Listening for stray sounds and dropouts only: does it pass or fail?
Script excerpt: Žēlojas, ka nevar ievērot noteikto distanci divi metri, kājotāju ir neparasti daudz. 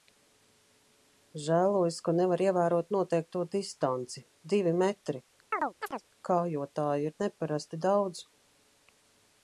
fail